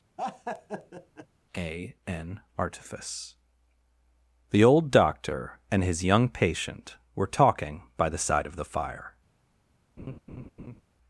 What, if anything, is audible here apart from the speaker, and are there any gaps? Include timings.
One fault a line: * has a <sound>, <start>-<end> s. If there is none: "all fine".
* has a laugh, 0.2-1.3 s
* has a laugh, 10.0-10.8 s